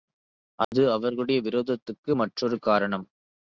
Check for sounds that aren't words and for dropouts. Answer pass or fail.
fail